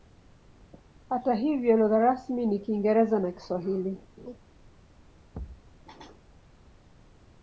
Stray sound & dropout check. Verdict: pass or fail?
fail